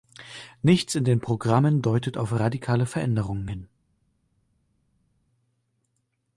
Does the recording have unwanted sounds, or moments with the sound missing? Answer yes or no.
no